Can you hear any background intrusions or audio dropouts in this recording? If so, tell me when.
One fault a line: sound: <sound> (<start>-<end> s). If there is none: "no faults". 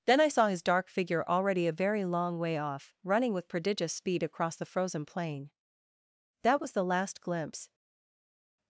no faults